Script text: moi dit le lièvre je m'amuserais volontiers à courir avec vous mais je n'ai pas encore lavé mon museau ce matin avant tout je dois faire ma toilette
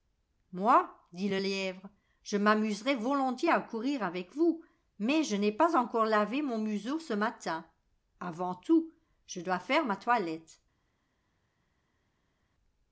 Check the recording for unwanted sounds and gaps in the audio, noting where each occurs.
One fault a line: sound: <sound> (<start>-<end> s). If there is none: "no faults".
no faults